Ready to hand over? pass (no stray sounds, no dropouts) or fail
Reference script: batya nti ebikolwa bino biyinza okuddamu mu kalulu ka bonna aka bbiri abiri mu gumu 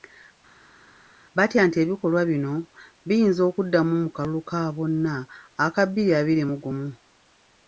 pass